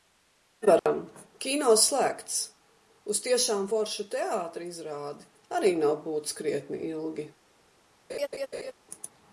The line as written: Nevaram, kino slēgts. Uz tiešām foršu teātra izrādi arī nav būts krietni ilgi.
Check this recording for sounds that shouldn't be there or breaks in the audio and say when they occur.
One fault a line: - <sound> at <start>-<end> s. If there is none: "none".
- dropout at 0.8-0.9 s
- laugh at 8.1-8.7 s